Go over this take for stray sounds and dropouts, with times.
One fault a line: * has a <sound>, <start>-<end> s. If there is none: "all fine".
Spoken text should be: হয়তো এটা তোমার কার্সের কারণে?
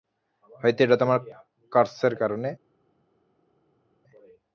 all fine